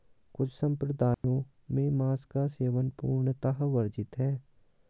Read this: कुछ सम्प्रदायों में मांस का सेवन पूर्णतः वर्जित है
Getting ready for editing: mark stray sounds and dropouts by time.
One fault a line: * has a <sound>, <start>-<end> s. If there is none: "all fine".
* has a dropout, 1.1-1.2 s